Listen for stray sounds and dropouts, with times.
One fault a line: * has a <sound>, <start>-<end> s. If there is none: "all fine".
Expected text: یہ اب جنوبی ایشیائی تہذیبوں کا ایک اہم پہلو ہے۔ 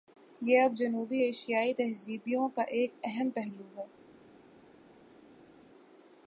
all fine